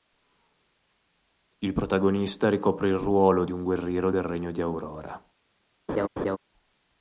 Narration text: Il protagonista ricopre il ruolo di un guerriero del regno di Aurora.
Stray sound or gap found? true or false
true